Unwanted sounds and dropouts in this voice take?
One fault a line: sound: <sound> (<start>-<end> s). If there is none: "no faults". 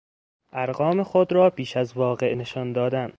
no faults